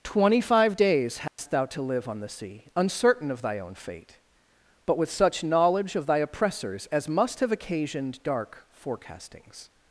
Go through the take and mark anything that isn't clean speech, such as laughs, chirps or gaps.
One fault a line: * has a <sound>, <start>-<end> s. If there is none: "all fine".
* has a dropout, 1.3-1.4 s